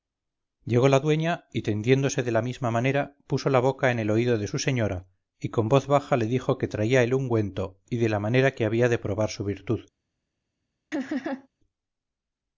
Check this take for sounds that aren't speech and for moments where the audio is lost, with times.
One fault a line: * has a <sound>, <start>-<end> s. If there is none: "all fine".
* has a laugh, 10.9-11.5 s